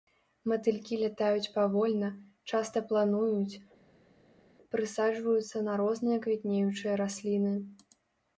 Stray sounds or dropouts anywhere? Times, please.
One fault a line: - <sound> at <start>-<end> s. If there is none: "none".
none